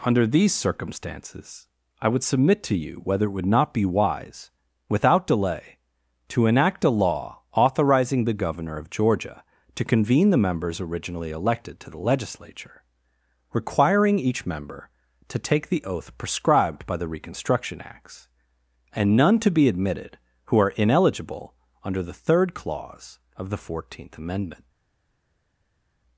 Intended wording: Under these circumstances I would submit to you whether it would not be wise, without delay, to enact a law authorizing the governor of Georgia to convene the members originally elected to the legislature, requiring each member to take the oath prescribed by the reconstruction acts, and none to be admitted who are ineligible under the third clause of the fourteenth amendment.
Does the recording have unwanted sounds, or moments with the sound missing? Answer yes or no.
no